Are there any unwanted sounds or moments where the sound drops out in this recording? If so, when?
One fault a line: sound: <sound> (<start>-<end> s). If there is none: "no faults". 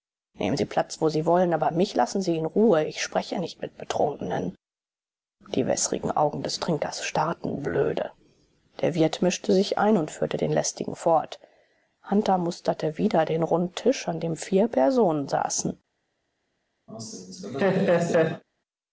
sound: laugh (16.9-18.4 s)